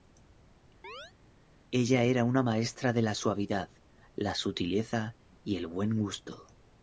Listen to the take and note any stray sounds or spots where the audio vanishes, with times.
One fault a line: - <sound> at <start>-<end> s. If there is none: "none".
- chirp at 0.8-1.1 s